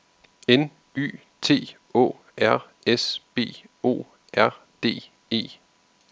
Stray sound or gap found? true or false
false